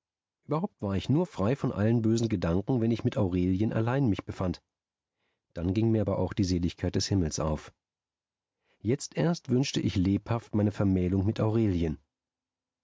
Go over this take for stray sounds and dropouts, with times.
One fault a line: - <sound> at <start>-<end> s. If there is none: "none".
none